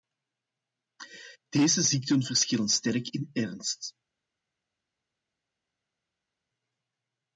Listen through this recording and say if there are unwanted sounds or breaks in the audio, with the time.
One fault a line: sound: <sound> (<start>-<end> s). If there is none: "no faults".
no faults